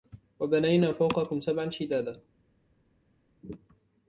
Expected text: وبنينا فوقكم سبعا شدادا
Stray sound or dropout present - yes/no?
no